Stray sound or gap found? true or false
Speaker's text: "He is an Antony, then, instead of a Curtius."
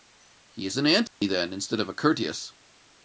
true